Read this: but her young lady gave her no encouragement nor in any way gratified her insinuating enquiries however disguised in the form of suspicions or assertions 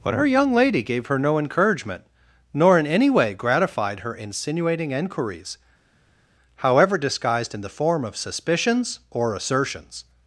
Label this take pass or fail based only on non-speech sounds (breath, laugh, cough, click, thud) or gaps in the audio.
pass